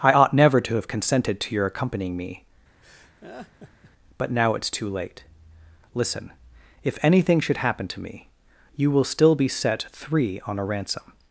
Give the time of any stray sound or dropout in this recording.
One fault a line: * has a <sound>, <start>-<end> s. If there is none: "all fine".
* has a laugh, 2.8-3.9 s